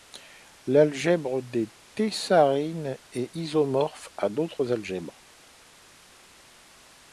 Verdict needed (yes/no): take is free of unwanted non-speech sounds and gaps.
yes